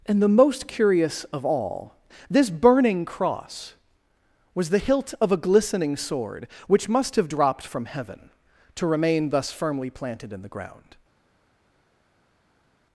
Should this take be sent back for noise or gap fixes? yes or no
no